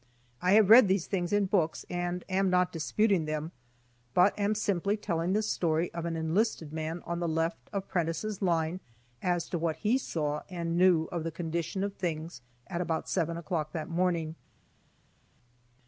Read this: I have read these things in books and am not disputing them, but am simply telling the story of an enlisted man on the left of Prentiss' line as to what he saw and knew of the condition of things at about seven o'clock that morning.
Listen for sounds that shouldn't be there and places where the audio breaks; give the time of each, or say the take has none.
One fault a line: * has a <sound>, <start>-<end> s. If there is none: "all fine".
all fine